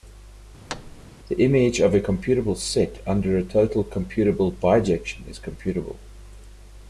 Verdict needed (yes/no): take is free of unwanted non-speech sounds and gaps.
no